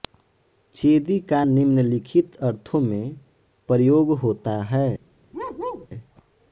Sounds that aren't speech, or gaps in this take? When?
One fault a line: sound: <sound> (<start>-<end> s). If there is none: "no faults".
sound: bark (5.3-5.9 s)